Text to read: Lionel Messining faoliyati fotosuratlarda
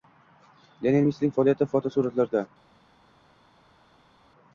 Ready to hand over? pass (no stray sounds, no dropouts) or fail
pass